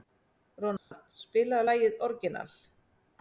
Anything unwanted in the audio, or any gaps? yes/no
yes